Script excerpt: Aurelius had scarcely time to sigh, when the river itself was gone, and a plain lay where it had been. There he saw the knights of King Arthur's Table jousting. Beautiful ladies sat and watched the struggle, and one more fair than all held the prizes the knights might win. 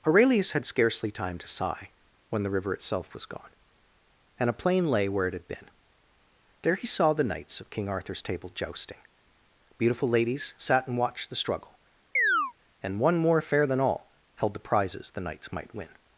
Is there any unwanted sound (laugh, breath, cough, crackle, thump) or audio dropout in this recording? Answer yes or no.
yes